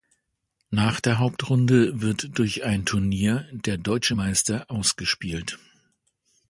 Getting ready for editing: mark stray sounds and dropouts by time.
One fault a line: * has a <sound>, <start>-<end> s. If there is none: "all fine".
all fine